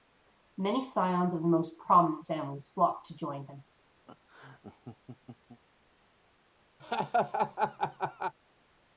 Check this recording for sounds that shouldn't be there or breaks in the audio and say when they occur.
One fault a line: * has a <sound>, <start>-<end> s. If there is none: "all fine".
* has a laugh, 4.1-5.6 s
* has a laugh, 6.8-8.3 s